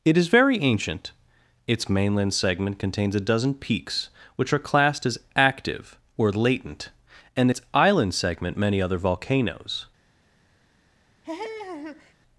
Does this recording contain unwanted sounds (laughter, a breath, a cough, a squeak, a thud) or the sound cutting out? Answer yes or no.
yes